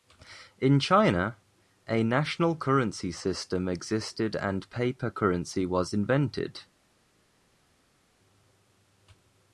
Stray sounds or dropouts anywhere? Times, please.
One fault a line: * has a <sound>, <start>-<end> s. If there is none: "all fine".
all fine